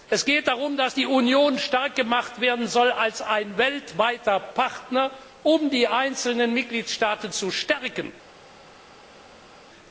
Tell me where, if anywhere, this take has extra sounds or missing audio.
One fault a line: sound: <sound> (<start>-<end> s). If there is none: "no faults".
no faults